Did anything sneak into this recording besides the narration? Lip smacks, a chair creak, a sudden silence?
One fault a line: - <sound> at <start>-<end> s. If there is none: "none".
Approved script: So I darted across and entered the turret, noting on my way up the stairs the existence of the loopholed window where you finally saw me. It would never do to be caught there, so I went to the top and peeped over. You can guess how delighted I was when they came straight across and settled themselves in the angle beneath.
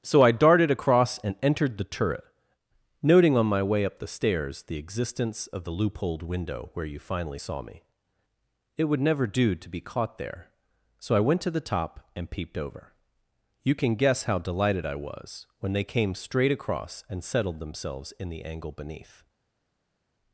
none